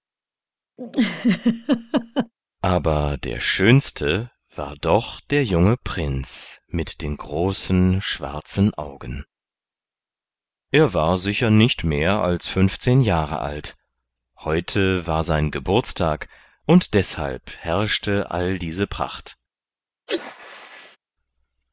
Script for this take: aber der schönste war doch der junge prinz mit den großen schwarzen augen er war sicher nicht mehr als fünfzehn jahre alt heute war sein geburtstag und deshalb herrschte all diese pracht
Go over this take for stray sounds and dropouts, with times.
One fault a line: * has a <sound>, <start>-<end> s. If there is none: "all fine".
* has a laugh, 0.8-2.3 s
* has a sneeze, 20.1-21.0 s